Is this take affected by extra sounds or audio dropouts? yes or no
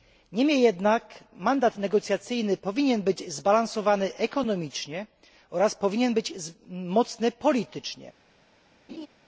yes